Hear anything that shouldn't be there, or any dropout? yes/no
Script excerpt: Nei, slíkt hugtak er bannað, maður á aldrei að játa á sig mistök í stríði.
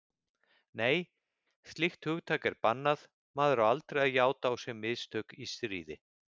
no